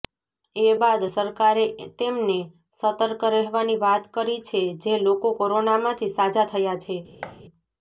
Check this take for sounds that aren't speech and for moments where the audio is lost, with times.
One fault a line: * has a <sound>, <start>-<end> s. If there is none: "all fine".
* has a thud, 7.2-7.4 s